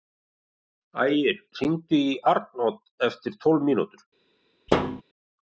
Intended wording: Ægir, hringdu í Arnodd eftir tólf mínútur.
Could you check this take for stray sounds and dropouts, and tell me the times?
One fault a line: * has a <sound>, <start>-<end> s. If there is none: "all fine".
* has a thud, 4.7-5.0 s